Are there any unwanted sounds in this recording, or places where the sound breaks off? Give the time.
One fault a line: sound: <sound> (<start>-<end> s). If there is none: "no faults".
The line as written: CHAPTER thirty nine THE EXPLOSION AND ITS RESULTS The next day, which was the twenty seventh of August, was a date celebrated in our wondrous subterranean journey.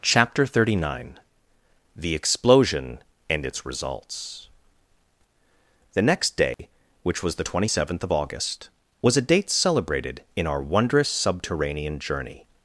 sound: dropout (6.5-6.6 s)